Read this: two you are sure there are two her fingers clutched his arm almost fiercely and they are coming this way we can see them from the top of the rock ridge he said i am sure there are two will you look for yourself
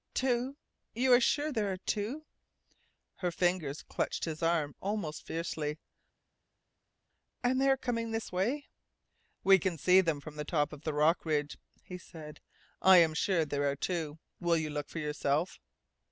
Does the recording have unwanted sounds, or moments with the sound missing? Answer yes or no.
no